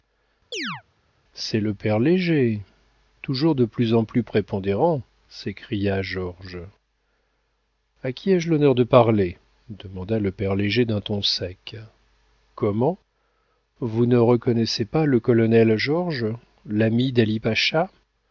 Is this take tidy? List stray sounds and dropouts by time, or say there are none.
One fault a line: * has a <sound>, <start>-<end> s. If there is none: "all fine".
* has a chirp, 0.5-0.8 s